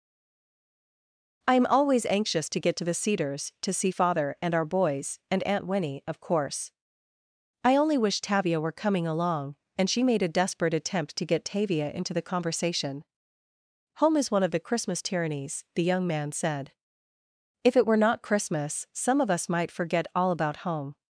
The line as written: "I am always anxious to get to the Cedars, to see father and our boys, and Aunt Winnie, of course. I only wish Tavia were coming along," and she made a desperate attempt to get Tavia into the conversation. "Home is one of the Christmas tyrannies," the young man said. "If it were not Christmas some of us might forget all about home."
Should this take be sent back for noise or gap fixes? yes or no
no